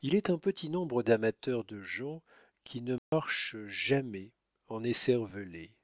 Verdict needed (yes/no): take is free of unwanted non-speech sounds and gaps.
no